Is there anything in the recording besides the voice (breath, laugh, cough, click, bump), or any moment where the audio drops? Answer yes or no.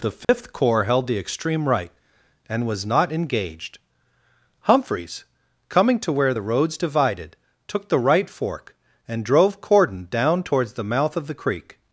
yes